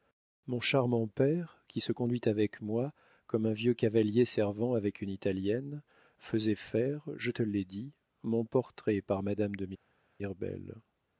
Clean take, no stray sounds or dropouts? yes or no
yes